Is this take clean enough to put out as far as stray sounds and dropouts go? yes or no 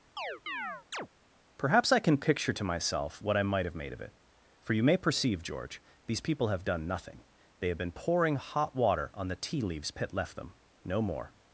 no